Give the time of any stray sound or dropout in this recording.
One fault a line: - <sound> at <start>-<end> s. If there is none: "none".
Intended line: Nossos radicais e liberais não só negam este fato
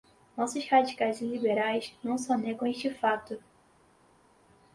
none